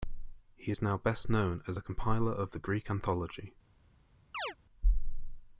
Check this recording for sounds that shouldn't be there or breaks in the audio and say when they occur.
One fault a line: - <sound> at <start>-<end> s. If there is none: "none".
- chirp at 4.3-4.6 s